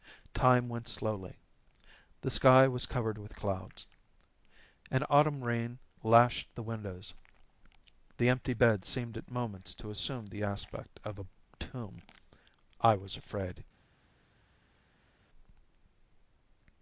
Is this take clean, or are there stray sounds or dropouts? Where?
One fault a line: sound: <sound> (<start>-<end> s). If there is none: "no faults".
no faults